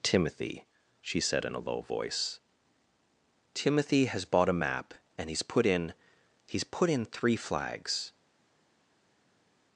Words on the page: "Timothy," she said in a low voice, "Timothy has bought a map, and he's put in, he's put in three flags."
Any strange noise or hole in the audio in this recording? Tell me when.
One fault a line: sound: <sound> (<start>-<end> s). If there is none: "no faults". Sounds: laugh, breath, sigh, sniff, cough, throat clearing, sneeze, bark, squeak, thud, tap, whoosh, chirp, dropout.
no faults